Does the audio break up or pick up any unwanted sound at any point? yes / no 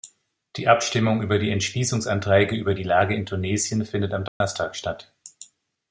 yes